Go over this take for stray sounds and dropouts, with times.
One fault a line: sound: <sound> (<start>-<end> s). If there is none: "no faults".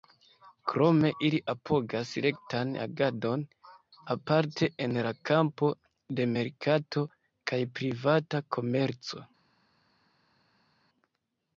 no faults